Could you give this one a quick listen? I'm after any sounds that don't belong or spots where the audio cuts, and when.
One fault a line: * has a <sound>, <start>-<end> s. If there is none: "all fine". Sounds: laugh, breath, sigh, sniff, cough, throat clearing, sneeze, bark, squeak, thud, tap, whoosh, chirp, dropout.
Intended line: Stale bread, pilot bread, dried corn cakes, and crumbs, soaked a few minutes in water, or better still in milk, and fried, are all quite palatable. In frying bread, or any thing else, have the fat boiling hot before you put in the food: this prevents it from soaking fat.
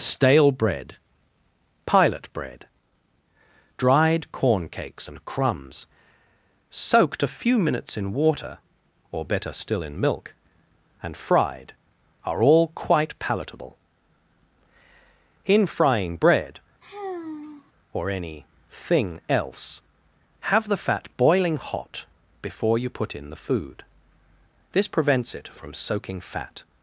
* has a sigh, 16.8-17.7 s